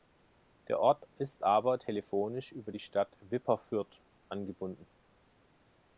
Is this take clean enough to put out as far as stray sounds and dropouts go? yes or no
yes